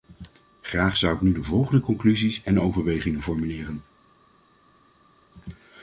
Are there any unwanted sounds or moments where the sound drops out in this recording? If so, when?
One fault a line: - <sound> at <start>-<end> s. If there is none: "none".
none